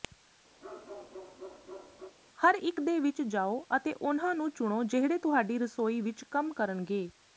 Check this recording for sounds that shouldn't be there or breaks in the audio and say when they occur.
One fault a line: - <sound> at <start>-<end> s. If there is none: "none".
- bark at 0.6-2.2 s